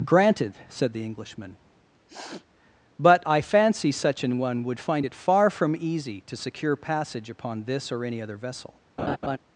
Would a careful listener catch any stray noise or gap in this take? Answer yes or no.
yes